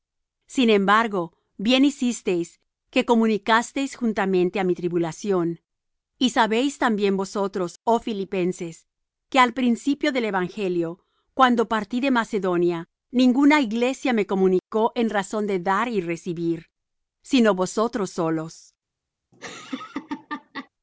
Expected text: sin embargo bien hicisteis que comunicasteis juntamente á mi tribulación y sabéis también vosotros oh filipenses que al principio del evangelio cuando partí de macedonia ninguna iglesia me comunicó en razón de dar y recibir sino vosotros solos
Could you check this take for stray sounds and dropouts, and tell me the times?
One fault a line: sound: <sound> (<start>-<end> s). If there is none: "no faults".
sound: laugh (19.3-20.7 s)